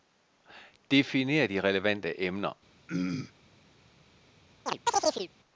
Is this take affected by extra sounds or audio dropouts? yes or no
yes